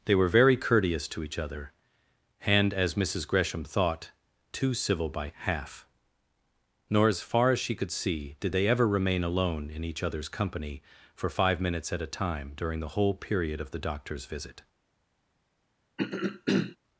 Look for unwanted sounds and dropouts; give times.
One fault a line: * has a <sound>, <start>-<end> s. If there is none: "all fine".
* has a throat clearing, 16.0-16.8 s